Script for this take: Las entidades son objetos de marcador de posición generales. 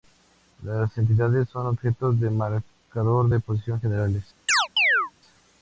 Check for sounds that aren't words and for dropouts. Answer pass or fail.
fail